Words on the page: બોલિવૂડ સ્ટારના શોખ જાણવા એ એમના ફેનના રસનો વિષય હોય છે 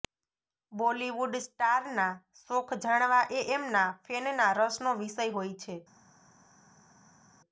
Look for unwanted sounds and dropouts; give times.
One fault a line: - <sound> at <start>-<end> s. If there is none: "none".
none